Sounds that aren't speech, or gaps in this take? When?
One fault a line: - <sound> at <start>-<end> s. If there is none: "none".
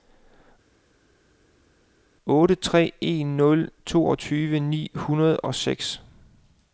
none